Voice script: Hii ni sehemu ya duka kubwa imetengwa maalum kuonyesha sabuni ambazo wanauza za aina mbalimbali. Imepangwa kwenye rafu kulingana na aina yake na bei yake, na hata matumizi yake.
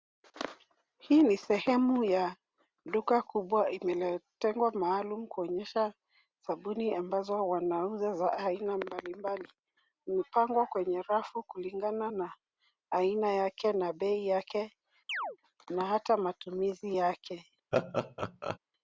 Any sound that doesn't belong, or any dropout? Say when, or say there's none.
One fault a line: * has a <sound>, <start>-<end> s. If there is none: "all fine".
* has a chirp, 15.1-15.4 s
* has a laugh, 17.7-18.6 s